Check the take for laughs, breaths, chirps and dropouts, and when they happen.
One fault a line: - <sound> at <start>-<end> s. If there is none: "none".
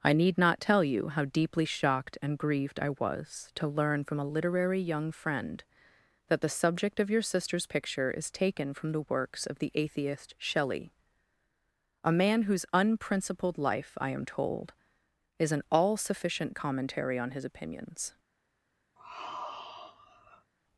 - sigh at 19.0-20.5 s